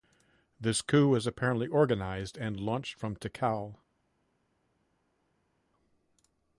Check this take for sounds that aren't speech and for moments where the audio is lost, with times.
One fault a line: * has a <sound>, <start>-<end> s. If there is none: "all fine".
all fine